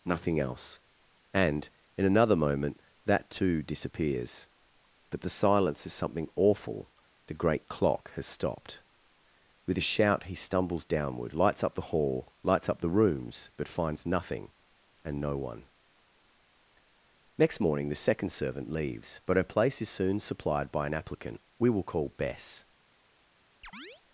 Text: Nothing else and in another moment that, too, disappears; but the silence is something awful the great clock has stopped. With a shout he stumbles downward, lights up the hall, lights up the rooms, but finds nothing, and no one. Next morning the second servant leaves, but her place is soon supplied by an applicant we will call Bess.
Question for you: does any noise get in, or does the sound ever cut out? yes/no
yes